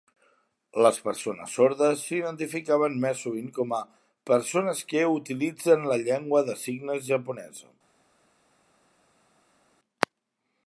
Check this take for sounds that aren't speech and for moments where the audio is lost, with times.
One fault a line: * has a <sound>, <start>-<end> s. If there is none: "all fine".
all fine